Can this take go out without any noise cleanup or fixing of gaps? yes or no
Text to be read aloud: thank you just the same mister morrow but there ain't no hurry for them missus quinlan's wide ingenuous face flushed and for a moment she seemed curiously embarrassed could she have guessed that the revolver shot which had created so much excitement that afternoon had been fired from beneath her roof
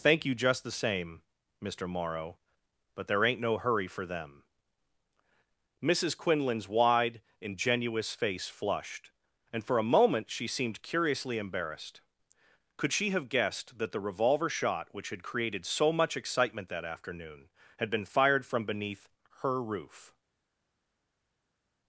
yes